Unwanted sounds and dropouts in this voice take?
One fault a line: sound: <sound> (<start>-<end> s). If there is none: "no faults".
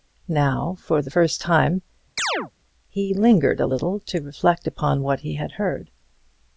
sound: chirp (2.2-2.5 s)